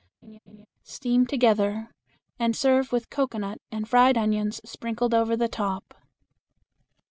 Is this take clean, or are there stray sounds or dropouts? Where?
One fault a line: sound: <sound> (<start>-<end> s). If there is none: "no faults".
sound: laugh (0.2-0.7 s)